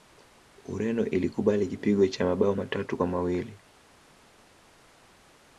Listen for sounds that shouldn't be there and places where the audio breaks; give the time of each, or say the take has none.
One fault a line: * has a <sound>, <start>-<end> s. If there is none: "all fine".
all fine